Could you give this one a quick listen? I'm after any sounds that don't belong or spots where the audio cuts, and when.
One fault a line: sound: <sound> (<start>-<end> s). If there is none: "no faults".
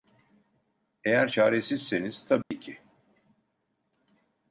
sound: dropout (2.4-2.5 s)